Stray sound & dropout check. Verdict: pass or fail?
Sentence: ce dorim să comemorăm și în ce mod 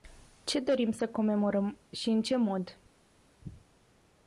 pass